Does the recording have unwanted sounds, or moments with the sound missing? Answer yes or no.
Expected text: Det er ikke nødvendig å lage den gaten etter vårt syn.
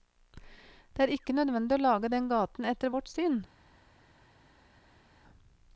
no